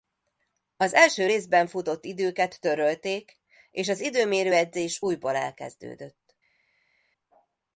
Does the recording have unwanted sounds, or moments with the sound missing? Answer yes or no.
no